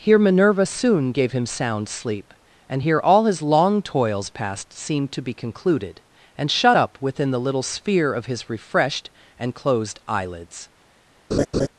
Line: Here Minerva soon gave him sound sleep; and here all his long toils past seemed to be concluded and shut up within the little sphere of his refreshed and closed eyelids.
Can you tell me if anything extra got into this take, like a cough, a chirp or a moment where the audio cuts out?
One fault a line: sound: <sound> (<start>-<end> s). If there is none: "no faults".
sound: laugh (11.3-11.7 s)